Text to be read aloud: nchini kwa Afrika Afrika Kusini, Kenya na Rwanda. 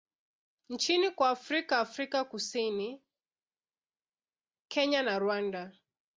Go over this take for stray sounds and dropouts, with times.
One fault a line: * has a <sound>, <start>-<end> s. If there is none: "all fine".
all fine